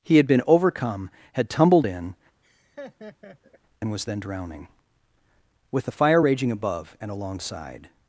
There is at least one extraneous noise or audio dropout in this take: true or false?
true